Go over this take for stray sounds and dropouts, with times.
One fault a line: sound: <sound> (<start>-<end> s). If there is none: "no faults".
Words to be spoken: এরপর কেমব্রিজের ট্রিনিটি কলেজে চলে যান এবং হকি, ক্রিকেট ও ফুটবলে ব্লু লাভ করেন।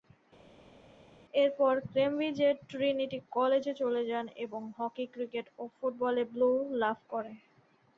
no faults